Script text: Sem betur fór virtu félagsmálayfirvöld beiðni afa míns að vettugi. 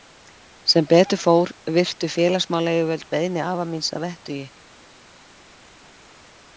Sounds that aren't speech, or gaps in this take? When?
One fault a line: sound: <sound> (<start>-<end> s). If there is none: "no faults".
no faults